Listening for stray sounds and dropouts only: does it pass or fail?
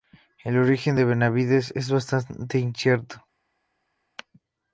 pass